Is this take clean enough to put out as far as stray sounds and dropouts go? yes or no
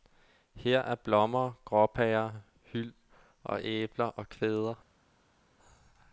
yes